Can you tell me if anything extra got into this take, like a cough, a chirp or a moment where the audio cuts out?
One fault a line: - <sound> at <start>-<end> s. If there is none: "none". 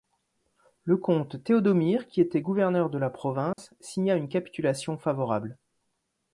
- dropout at 3.5-3.6 s